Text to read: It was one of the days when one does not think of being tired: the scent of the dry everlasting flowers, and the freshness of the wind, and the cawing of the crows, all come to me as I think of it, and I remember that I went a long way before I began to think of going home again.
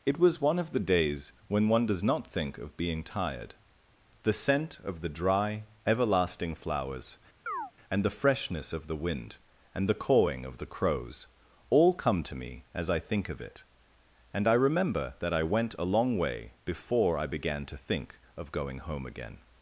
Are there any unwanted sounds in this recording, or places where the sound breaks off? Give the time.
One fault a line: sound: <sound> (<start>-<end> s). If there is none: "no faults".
sound: chirp (7.5-7.7 s)